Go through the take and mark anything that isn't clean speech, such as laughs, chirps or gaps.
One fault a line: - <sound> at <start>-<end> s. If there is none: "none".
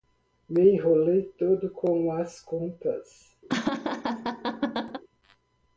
- laugh at 3.5-5.0 s